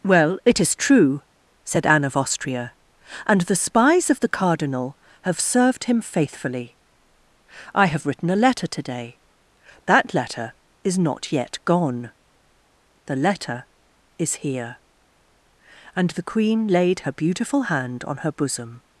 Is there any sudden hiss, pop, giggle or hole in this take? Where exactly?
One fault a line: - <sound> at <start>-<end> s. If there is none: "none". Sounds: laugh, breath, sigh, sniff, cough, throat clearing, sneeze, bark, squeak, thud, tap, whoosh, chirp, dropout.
none